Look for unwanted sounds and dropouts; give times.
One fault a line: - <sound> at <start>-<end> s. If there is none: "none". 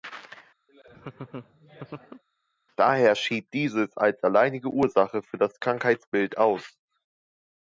- laugh at 0.7-2.2 s